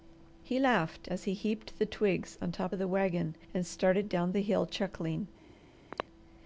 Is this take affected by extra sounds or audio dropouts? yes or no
yes